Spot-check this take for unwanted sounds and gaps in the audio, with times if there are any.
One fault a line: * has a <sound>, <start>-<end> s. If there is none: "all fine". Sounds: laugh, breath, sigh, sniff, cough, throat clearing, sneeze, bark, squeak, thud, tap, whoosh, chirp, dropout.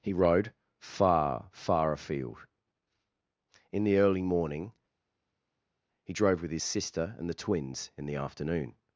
all fine